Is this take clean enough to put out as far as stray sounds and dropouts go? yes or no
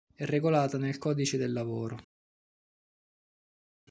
yes